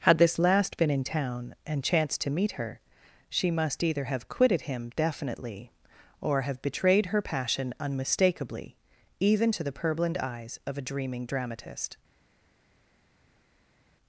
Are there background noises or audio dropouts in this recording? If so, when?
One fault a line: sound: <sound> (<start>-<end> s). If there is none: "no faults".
no faults